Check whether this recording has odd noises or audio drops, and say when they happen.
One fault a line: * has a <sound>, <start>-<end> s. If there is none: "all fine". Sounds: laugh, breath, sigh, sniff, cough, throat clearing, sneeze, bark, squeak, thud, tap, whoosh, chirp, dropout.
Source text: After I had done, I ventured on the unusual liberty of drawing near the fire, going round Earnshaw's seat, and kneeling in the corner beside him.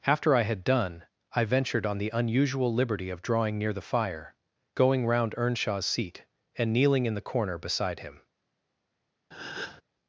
* has a breath, 9.3-9.8 s